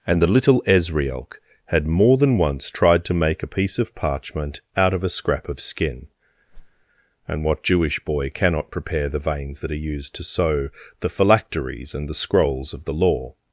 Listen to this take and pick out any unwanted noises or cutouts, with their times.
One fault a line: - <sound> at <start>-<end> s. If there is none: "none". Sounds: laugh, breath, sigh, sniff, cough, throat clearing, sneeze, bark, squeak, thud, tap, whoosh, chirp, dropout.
- whoosh at 6.5-6.8 s